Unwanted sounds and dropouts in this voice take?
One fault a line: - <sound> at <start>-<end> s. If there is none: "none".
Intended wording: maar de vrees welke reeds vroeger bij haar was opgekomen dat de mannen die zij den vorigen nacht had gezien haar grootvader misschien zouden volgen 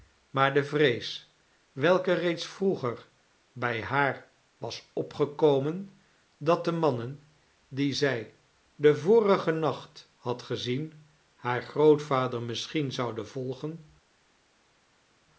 none